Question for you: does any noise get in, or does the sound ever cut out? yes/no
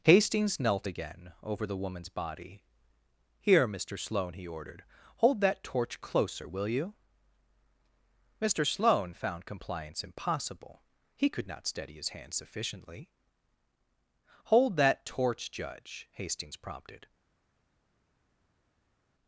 no